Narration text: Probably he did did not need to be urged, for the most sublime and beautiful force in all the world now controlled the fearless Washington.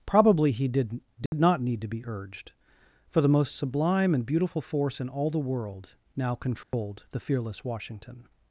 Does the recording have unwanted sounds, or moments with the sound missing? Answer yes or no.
yes